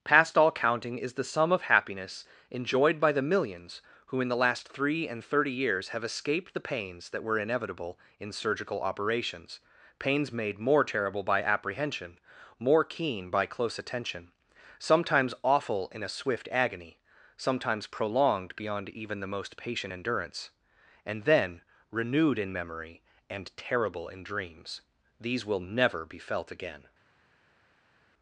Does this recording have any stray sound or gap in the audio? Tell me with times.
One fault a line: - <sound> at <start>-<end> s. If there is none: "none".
none